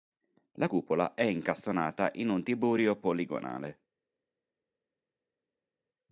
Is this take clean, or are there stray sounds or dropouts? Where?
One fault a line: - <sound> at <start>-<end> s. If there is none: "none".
none